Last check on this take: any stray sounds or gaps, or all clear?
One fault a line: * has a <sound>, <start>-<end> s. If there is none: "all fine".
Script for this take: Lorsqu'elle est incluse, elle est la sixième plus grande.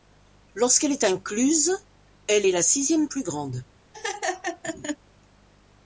* has a laugh, 3.9-5.0 s